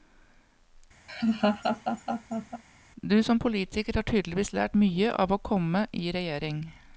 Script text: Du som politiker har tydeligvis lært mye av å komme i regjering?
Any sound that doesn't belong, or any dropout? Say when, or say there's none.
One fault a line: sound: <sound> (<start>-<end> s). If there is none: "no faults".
sound: laugh (1.1-2.6 s)